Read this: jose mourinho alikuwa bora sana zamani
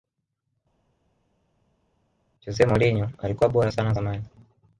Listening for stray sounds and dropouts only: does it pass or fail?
pass